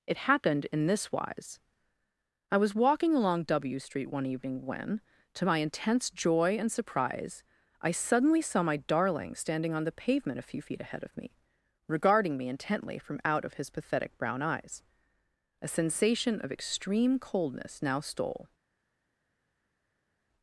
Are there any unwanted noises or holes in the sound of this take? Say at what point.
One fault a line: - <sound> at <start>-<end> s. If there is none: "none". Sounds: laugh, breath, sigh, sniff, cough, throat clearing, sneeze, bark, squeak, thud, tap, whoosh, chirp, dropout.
none